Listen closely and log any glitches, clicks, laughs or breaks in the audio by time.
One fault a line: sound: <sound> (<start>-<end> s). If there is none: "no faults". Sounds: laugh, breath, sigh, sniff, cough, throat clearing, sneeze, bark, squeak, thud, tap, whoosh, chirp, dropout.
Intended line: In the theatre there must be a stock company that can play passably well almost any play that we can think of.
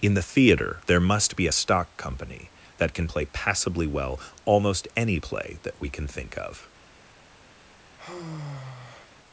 sound: sigh (8.0-9.1 s)